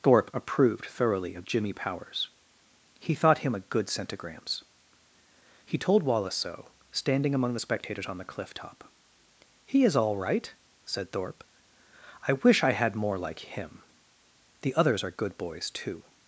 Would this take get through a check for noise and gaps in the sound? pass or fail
pass